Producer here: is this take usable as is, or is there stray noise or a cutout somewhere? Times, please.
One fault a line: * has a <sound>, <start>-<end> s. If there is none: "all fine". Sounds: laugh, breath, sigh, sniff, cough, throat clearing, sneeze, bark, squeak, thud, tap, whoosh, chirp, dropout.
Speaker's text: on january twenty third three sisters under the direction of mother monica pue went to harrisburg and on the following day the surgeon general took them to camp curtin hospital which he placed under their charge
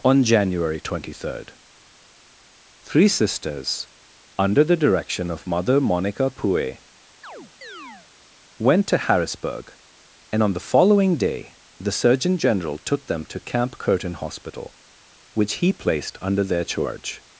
* has a chirp, 7.2-8.1 s